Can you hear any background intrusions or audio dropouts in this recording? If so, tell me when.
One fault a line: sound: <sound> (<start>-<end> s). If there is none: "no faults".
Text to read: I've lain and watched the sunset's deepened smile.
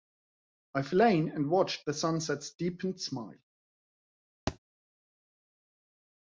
sound: thud (4.5-4.6 s)